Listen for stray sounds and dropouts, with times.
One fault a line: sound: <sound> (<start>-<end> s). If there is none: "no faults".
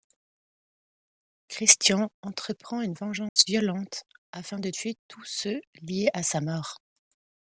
sound: dropout (3.3-3.4 s)